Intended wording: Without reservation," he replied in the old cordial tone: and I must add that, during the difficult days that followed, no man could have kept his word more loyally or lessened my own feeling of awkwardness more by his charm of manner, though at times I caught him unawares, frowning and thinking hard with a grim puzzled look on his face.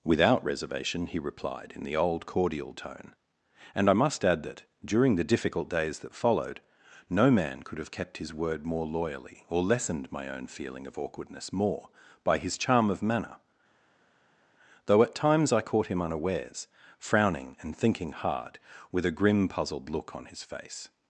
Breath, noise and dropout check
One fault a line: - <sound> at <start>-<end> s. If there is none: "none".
none